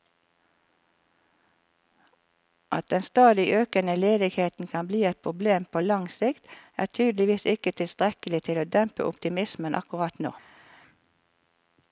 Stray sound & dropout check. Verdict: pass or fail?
pass